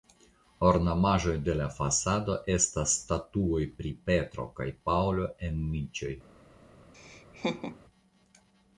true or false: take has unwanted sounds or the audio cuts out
true